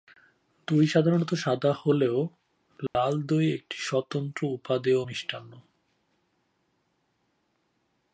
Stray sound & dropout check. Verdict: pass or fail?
fail